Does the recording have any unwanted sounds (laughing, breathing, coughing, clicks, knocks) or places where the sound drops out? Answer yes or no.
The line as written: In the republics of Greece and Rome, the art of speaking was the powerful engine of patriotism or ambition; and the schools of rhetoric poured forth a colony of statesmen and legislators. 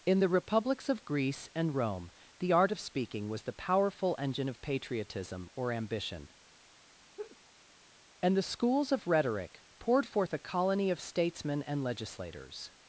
yes